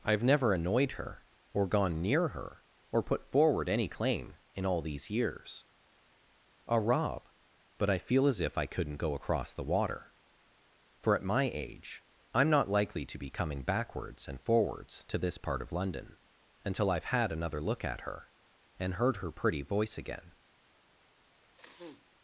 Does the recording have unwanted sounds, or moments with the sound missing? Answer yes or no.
yes